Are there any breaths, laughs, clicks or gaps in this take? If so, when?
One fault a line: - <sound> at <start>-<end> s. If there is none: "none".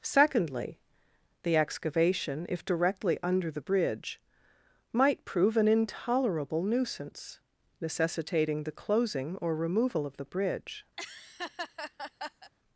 - laugh at 11.0-12.5 s